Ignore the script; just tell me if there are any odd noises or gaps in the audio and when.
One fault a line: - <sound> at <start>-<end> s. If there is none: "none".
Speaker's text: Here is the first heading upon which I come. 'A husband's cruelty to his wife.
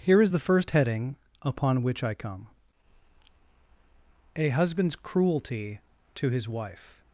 none